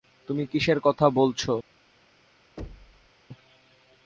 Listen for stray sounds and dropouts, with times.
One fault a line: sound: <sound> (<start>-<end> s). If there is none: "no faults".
sound: thud (2.6-3.1 s)